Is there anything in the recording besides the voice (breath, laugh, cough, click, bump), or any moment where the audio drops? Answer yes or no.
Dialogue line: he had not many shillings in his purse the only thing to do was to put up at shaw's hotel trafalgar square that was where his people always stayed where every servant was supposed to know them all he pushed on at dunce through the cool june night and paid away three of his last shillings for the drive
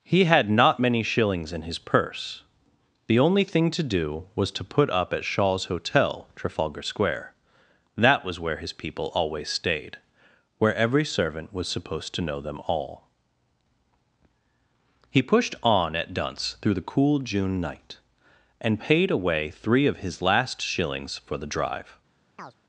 yes